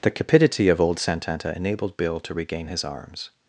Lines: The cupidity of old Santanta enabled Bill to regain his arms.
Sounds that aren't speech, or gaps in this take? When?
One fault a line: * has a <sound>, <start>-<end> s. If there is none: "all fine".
all fine